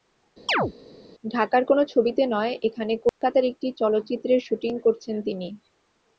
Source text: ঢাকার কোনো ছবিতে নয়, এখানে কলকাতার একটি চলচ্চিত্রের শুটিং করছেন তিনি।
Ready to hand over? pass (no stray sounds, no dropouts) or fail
fail